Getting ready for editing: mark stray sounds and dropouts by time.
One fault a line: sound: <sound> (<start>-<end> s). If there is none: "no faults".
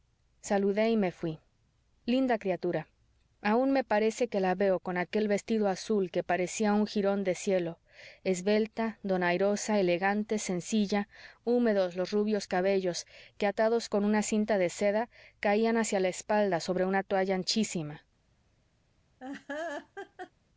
sound: laugh (19.2-20.3 s)